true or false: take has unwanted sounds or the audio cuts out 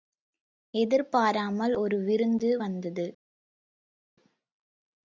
false